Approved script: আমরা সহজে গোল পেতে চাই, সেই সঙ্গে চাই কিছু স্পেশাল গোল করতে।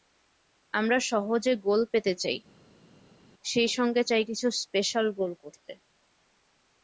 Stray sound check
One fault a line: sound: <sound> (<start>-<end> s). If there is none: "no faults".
no faults